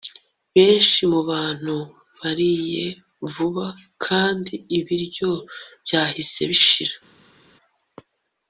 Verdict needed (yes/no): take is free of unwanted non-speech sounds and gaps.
yes